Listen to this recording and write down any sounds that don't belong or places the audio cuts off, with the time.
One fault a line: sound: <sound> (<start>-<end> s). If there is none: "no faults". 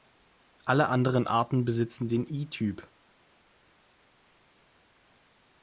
no faults